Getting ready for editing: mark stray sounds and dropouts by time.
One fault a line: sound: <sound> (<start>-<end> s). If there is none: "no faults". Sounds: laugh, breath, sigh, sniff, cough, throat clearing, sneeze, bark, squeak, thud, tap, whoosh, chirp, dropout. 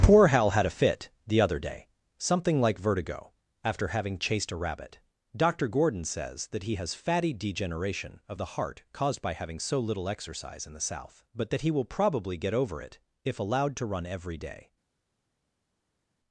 no faults